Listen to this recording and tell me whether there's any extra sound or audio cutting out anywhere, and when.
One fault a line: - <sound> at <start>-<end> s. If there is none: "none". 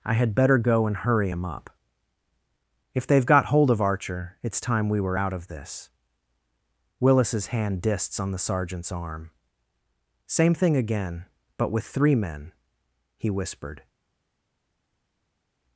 none